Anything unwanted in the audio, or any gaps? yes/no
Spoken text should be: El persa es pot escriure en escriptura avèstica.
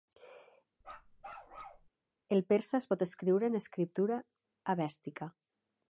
yes